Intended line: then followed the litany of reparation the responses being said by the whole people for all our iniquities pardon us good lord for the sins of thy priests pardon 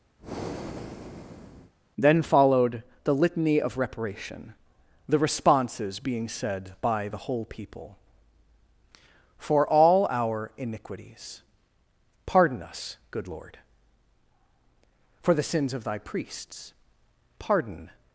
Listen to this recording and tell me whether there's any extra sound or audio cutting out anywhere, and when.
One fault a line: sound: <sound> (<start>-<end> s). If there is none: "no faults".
sound: breath (0.2-1.7 s)